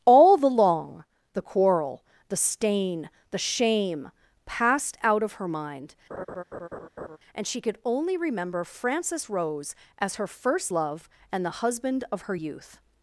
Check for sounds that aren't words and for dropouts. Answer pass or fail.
fail